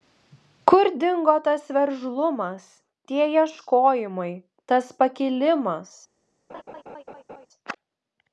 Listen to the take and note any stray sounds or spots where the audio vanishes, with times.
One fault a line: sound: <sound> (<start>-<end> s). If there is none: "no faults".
sound: laugh (6.5-7.5 s)